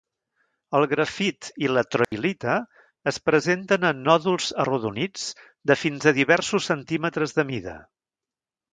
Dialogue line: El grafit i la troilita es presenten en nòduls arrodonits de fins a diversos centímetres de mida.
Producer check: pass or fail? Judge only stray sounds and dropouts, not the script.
fail